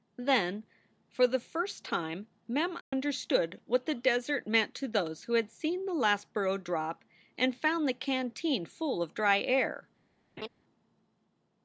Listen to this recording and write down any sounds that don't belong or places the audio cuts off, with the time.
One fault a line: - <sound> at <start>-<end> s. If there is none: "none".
- dropout at 2.8-2.9 s
- laugh at 10.4-10.5 s